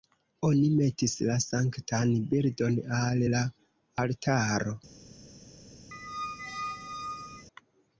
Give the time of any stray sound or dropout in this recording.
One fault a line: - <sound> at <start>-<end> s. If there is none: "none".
- squeak at 5.9-7.5 s